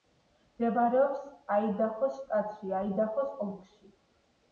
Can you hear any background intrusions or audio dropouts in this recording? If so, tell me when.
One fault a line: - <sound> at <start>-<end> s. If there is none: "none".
none